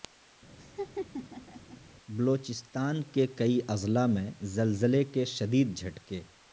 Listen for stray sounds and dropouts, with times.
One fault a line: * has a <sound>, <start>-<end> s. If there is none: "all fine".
* has a laugh, 0.6-1.8 s